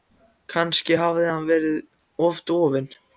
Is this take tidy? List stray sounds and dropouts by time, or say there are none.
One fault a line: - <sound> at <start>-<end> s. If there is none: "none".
none